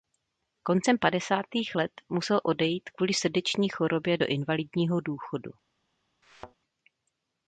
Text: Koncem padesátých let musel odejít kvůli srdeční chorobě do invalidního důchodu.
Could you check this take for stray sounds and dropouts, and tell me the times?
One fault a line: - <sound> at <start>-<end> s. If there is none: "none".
- thud at 6.2-6.6 s